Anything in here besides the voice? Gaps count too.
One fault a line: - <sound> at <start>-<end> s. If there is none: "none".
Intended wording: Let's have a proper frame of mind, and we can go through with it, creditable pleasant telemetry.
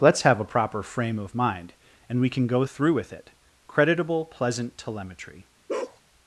- bark at 5.7-6.0 s